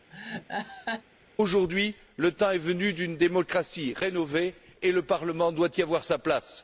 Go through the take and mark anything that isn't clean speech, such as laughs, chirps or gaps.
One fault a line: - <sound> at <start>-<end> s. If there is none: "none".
- laugh at 0.1-1.0 s